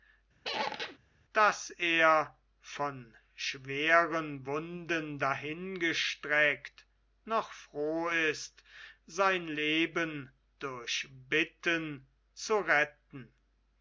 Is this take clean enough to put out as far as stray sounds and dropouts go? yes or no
no